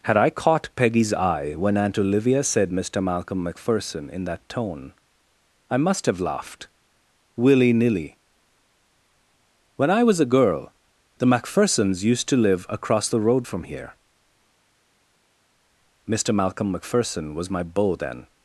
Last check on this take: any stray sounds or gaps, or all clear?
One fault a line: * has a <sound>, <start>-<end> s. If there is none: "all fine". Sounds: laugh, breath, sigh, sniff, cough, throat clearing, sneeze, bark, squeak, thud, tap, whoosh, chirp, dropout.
all fine